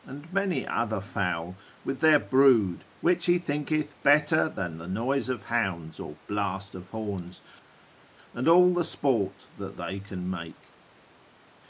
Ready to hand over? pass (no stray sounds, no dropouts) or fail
pass